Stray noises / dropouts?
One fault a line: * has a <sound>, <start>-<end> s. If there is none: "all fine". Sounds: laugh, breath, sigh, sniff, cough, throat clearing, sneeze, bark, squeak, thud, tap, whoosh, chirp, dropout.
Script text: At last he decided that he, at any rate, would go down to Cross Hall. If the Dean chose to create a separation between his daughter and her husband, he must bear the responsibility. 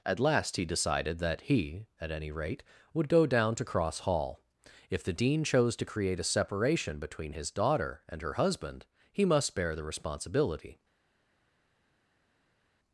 all fine